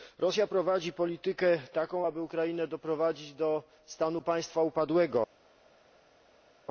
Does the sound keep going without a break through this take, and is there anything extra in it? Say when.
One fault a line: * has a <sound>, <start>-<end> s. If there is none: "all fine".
all fine